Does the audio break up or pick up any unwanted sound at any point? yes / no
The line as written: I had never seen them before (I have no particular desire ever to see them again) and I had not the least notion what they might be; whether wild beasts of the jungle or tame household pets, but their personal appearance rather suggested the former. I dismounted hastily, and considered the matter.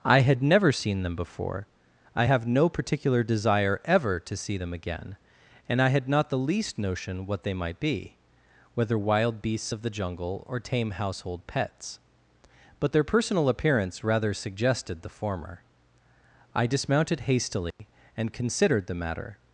yes